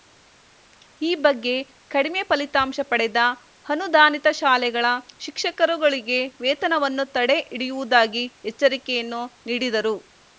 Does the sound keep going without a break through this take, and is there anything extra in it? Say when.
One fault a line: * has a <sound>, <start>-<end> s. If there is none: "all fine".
all fine